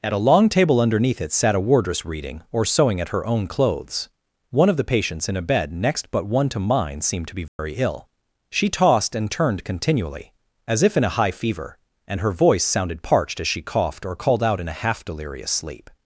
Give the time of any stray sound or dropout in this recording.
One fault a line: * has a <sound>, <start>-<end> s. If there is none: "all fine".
* has a dropout, 7.5-7.6 s